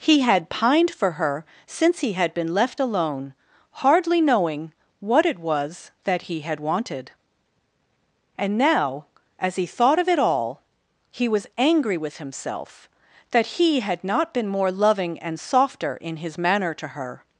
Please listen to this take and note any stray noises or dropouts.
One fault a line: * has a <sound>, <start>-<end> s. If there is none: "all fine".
all fine